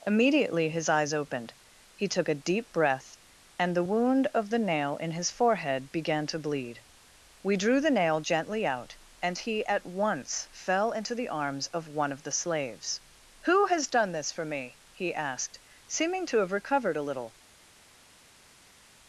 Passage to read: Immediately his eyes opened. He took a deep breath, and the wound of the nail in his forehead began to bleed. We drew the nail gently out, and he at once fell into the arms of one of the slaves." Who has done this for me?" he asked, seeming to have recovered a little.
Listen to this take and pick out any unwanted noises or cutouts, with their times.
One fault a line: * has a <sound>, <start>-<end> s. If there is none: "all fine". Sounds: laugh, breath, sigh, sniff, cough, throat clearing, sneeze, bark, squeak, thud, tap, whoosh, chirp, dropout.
all fine